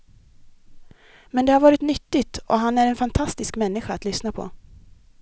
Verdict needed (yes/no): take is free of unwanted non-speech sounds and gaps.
yes